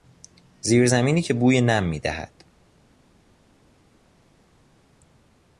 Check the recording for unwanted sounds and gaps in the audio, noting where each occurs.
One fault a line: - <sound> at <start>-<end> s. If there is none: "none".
none